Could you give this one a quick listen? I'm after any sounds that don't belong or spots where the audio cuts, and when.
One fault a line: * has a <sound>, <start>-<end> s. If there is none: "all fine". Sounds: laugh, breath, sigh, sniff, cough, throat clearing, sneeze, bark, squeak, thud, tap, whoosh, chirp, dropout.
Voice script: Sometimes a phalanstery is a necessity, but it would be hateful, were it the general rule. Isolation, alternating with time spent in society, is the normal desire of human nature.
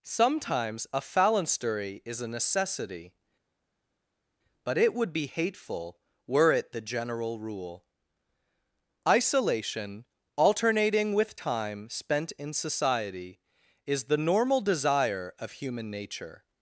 all fine